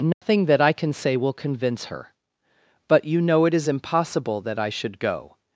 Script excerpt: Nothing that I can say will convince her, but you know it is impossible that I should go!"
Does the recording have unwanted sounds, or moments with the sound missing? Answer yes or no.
yes